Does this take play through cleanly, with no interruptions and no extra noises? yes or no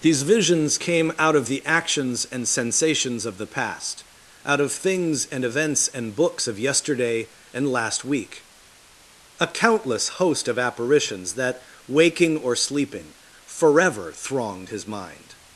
yes